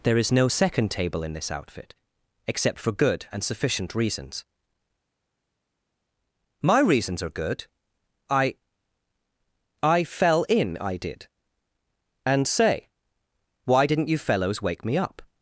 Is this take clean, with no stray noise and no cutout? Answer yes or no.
yes